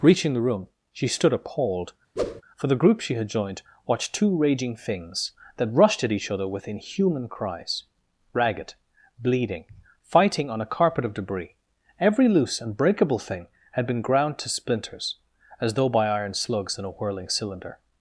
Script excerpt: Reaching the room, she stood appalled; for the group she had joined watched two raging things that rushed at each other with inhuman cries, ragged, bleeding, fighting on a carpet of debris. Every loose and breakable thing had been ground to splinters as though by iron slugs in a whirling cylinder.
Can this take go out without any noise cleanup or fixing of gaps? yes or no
no